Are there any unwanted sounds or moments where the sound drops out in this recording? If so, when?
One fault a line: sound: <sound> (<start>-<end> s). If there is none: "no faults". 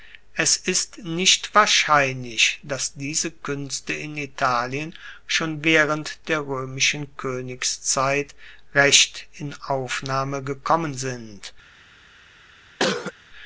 sound: cough (12.8-13.1 s)